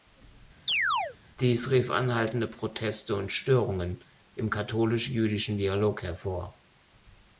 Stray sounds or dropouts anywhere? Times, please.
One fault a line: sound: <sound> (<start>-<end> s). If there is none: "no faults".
sound: chirp (0.7-1.2 s)